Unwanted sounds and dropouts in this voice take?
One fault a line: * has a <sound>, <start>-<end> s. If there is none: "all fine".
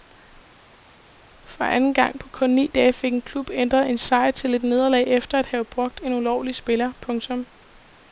all fine